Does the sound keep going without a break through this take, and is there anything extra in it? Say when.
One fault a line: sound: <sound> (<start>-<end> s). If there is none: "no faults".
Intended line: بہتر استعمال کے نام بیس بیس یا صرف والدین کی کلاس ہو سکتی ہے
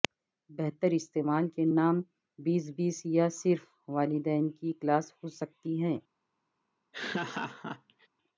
sound: laugh (6.9-8.1 s)